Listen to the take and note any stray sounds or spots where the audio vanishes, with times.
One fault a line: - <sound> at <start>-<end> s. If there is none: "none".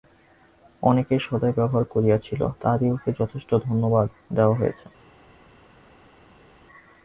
none